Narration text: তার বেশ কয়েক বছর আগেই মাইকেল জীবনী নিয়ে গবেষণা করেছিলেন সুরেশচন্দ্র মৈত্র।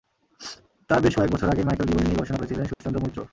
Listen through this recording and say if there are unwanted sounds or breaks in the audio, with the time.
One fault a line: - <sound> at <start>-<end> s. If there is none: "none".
- dropout at 2.7-2.8 s